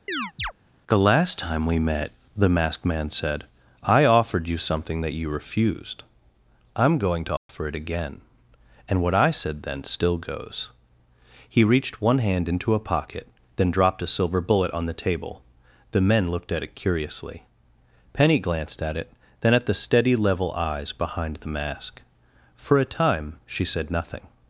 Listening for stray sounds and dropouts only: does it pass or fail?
fail